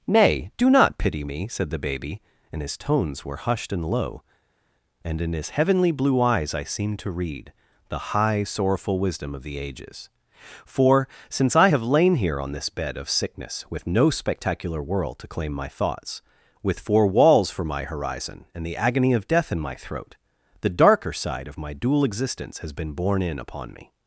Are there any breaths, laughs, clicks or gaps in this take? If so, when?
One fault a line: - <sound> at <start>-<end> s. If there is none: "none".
none